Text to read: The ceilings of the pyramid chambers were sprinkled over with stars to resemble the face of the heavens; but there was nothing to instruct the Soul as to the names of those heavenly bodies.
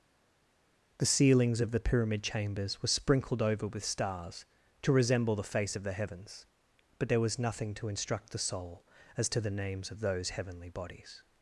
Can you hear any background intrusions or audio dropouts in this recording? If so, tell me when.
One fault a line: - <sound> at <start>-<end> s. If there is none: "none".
none